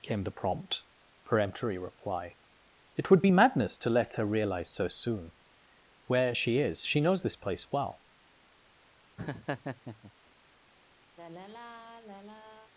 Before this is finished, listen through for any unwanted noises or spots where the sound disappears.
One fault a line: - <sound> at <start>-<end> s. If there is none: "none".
- laugh at 9.2-10.1 s
- sigh at 11.2-12.7 s